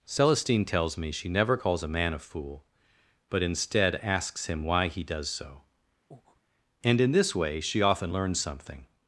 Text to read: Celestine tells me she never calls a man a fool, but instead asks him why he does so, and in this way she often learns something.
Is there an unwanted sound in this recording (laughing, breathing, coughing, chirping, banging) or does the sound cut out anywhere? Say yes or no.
yes